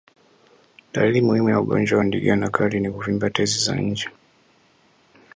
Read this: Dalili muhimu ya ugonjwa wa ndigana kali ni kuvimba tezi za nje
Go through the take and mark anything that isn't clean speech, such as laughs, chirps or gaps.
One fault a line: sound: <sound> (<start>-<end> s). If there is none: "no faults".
no faults